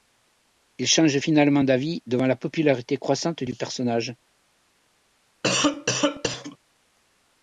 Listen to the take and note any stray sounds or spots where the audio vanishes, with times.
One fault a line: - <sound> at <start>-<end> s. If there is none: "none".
- cough at 5.4-6.6 s